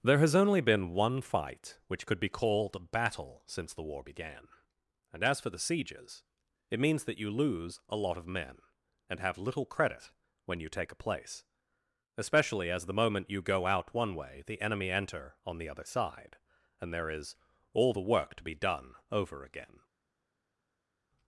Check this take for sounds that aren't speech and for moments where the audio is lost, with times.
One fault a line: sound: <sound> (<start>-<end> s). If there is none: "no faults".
no faults